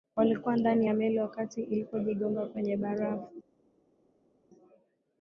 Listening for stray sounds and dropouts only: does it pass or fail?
pass